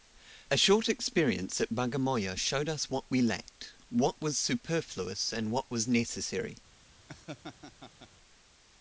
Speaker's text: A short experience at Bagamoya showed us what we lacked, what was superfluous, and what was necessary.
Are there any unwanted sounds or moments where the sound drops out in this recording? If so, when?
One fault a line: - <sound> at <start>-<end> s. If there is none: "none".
- laugh at 7.1-8.1 s